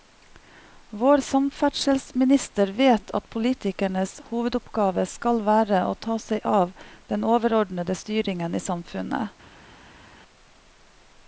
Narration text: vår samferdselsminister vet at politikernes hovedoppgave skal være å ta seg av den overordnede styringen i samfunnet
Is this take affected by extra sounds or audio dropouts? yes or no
no